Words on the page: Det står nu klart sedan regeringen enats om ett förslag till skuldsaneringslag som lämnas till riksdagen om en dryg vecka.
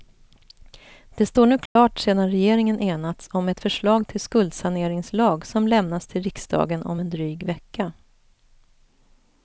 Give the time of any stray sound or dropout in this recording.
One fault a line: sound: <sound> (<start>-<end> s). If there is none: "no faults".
sound: dropout (1.7-1.8 s)